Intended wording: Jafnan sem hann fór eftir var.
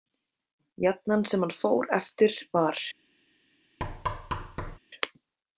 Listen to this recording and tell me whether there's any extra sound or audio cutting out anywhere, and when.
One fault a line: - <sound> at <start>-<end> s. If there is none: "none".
- thud at 3.8-4.8 s